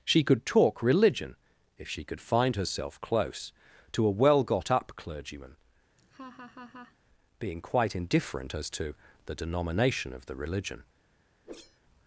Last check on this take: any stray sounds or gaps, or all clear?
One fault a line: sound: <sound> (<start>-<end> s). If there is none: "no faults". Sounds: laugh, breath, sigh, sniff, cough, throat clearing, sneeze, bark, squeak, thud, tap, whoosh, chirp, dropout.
sound: laugh (6.0-7.0 s)
sound: whoosh (11.4-11.8 s)